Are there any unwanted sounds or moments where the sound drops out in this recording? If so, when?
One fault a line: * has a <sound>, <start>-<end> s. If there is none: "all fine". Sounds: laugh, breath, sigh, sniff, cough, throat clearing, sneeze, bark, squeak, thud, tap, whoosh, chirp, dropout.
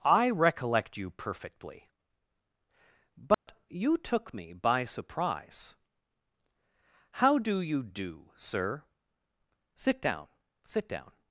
* has a dropout, 3.3-3.5 s